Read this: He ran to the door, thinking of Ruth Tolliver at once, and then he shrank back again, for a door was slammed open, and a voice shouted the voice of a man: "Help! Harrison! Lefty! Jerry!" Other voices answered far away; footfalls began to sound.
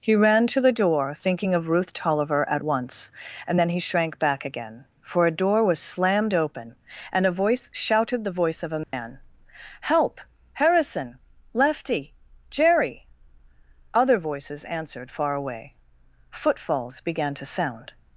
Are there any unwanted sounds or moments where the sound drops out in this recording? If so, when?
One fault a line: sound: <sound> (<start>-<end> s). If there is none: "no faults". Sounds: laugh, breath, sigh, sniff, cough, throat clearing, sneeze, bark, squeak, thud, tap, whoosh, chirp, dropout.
sound: dropout (8.8-8.9 s)